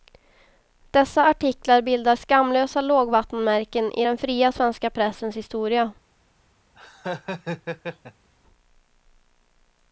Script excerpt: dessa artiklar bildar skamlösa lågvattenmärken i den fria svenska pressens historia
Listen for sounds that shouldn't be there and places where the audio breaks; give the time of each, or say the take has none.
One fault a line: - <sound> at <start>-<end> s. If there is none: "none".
- laugh at 6.7-8.3 s